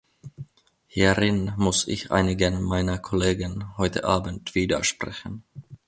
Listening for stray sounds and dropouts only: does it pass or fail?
pass